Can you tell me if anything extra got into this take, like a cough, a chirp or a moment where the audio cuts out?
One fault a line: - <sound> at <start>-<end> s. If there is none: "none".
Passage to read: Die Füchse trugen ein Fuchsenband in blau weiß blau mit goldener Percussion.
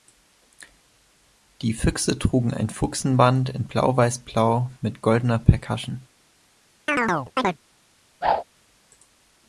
- chirp at 6.9-7.6 s
- whoosh at 8.2-8.4 s